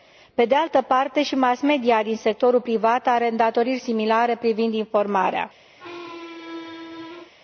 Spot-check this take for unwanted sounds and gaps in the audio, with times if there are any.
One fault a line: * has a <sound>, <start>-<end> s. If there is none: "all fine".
* has a squeak, 5.8-7.3 s